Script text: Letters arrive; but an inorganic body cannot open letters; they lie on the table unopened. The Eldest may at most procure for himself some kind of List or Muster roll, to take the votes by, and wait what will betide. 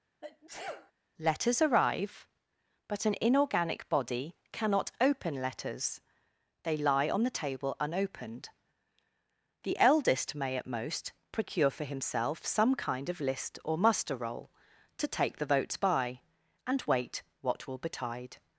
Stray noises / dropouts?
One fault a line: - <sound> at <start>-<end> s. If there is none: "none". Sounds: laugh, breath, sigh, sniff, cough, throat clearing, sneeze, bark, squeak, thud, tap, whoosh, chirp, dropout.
- sneeze at 0.2-0.9 s